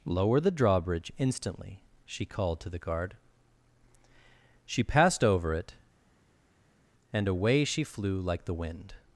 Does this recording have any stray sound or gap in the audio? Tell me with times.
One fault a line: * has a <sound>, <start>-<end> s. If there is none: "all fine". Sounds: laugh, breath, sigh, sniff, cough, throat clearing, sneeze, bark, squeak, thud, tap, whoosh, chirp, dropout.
all fine